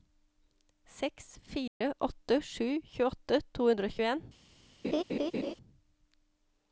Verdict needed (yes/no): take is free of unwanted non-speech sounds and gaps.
no